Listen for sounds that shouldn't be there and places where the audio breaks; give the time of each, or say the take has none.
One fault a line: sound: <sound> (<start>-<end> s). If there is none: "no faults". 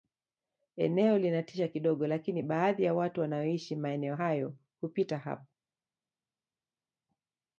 no faults